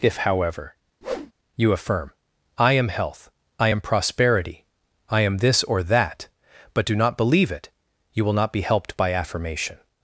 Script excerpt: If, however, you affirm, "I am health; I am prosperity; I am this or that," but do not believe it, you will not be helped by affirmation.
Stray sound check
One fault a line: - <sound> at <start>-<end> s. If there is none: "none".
- whoosh at 1.0-1.3 s